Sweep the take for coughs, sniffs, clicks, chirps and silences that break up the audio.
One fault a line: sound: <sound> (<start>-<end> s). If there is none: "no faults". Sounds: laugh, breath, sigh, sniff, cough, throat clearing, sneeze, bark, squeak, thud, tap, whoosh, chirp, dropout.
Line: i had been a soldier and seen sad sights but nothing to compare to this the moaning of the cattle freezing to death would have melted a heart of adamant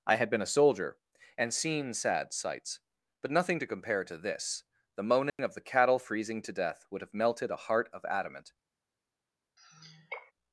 sound: dropout (5.3-5.4 s)
sound: sigh (9.6-10.3 s)